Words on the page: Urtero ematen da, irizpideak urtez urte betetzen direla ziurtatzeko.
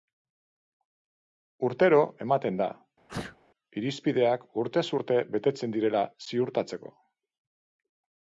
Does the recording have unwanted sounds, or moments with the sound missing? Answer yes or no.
yes